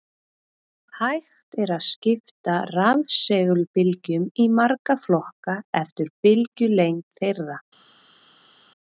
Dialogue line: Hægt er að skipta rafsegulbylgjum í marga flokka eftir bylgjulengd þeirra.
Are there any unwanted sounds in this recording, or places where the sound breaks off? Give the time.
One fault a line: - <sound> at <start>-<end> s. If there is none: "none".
none